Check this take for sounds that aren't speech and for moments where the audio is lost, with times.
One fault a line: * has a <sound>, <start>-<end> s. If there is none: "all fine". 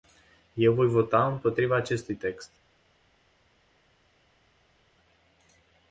all fine